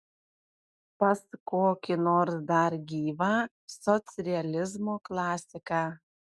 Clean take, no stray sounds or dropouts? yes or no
yes